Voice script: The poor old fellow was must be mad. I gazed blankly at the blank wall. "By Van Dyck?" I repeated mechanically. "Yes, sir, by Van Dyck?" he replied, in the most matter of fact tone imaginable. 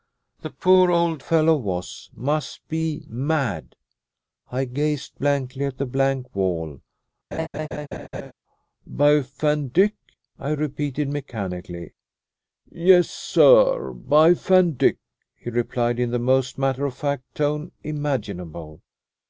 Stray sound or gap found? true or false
true